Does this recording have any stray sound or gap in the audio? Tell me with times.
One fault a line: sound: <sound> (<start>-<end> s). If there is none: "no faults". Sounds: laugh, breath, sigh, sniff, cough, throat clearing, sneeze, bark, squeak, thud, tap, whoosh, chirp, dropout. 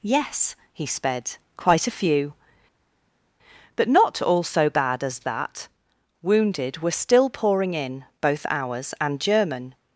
no faults